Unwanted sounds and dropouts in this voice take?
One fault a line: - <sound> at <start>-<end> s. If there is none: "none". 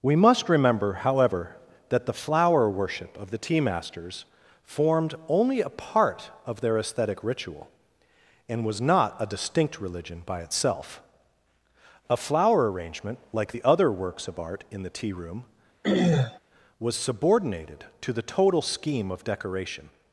- throat clearing at 15.8-16.4 s